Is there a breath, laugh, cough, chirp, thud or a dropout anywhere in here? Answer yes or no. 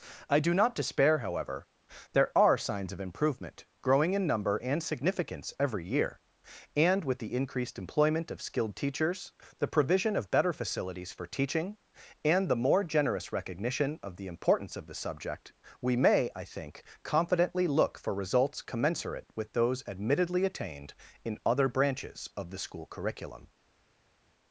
no